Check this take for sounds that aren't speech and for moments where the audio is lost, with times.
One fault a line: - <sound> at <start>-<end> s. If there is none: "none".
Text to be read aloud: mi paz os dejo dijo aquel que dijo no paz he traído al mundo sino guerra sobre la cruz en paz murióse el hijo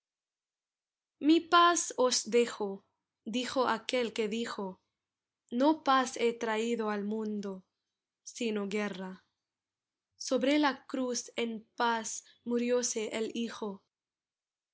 none